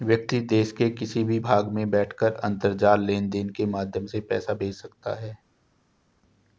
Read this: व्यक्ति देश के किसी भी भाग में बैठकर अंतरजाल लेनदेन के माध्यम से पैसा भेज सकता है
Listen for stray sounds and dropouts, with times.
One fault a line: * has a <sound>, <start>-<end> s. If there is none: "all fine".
all fine